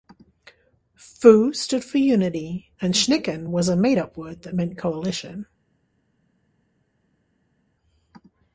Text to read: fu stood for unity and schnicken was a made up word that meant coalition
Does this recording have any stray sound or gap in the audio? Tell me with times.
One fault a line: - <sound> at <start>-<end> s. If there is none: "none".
none